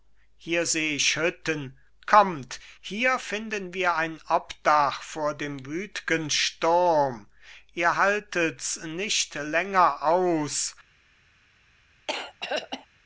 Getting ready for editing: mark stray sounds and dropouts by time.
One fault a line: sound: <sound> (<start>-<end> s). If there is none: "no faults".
sound: throat clearing (12.1-12.9 s)